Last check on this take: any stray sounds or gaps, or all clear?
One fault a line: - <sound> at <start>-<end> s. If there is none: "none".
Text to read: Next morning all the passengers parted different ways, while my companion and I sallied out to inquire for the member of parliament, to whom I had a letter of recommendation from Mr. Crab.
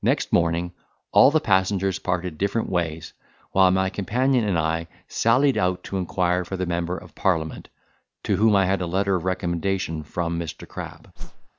- whoosh at 11.2-11.5 s